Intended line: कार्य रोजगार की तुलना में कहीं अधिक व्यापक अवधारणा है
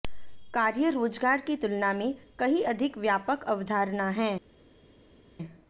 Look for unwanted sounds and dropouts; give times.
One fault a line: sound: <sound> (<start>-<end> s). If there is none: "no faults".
no faults